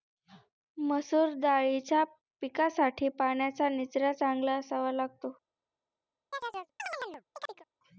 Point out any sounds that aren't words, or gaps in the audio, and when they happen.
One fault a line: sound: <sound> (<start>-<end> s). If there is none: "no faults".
sound: chirp (6.3-7.7 s)